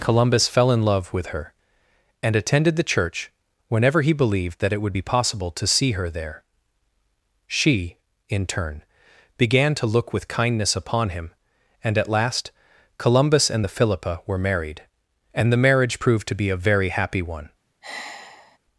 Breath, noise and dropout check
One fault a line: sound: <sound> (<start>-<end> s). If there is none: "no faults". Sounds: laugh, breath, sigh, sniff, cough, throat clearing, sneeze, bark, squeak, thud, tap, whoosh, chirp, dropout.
sound: sigh (17.8-18.6 s)